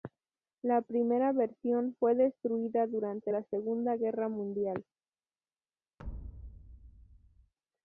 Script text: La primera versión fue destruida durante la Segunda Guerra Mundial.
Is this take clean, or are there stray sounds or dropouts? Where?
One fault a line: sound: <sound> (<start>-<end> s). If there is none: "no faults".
sound: thud (6.0-7.5 s)